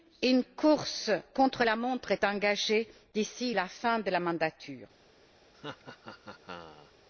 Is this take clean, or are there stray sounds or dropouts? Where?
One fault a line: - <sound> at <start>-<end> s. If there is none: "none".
- laugh at 5.5-6.9 s